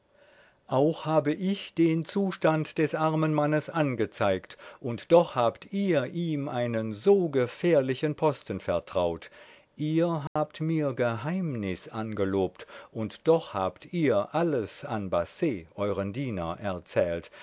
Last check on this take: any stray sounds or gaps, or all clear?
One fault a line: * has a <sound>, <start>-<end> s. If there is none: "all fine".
* has a dropout, 10.3-10.4 s